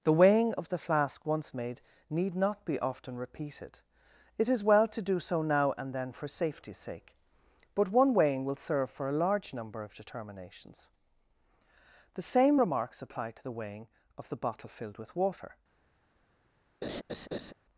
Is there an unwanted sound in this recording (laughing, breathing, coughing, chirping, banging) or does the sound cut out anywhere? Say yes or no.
yes